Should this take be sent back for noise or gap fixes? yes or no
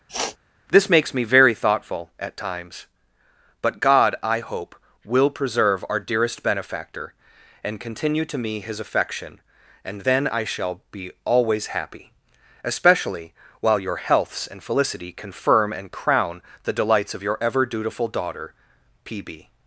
yes